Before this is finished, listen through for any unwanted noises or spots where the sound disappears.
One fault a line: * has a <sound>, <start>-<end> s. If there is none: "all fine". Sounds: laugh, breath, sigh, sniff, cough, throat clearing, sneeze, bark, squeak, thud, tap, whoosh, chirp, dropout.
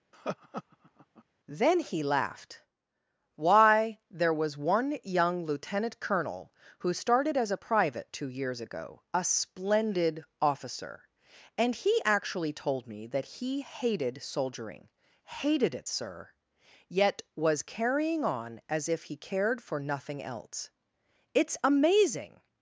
* has a laugh, 0.1-1.2 s